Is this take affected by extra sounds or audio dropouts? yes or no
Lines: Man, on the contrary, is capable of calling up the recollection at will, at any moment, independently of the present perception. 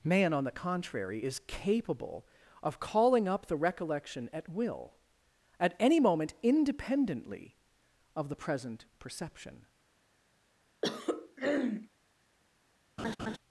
yes